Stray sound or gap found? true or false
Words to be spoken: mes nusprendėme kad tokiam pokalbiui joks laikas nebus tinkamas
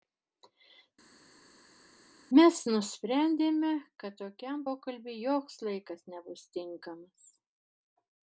false